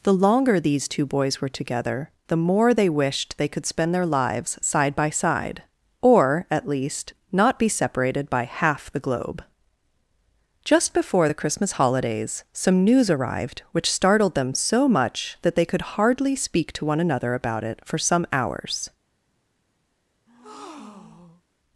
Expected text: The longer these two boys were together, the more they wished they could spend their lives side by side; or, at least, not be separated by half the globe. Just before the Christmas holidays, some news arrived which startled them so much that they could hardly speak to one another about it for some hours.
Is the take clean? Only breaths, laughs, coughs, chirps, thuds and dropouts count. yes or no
no